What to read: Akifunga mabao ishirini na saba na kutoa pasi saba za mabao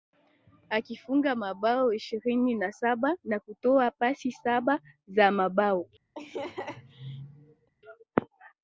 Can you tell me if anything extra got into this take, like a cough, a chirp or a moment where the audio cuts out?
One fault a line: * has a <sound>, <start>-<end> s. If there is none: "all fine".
* has a laugh, 6.1-7.7 s